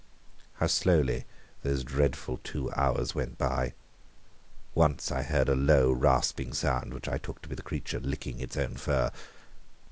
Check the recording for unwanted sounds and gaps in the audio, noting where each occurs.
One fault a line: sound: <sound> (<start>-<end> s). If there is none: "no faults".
no faults